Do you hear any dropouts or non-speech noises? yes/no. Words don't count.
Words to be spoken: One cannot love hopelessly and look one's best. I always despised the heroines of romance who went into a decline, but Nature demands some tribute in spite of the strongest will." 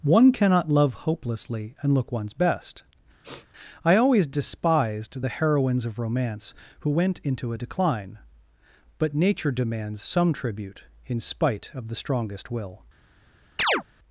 yes